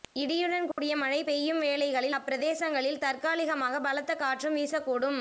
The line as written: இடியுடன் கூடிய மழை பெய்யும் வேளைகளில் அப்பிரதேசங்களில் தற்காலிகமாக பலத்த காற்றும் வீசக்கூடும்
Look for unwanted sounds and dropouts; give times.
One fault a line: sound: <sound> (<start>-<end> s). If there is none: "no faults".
sound: dropout (0.7-0.8 s)